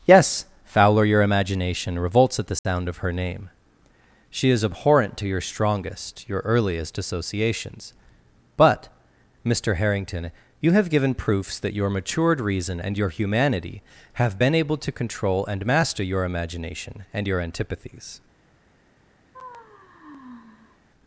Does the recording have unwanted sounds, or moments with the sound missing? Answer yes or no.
yes